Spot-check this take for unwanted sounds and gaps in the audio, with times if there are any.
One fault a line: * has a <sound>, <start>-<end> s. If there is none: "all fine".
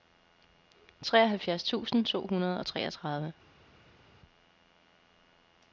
all fine